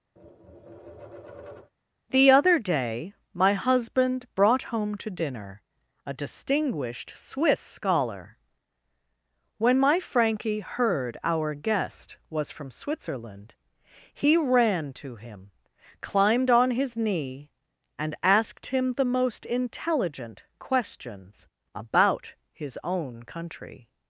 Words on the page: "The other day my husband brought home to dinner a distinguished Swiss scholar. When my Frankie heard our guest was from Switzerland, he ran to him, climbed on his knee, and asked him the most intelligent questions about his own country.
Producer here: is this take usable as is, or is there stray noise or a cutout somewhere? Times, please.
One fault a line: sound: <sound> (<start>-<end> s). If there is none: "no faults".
sound: tap (0.2-1.7 s)